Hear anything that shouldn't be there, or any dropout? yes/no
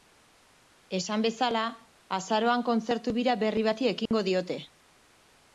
yes